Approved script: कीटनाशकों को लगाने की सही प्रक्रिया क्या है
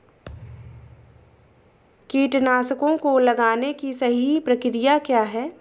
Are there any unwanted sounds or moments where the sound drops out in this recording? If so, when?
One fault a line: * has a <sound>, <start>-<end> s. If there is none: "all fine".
* has a thud, 0.2-1.8 s